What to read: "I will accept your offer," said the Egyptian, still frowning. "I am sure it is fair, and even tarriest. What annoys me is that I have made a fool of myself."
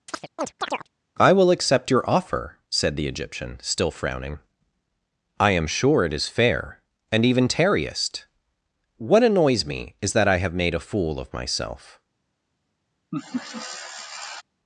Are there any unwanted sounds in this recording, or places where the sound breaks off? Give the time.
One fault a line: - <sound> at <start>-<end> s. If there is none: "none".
- chirp at 0.1-0.9 s
- laugh at 13.1-14.4 s